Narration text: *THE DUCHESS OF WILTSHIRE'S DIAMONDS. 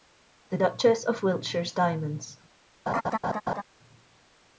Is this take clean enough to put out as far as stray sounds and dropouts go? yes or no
no